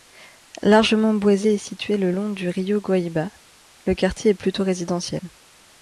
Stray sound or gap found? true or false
false